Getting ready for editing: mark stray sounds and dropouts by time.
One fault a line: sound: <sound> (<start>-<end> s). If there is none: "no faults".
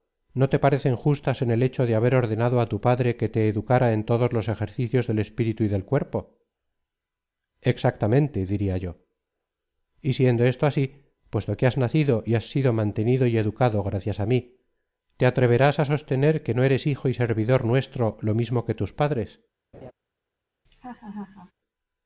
sound: laugh (19.7-19.9 s)
sound: laugh (20.6-21.5 s)